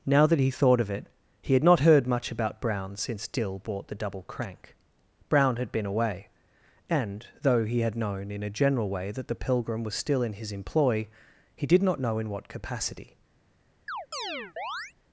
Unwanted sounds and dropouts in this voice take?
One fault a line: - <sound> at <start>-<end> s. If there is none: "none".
- chirp at 13.9-14.9 s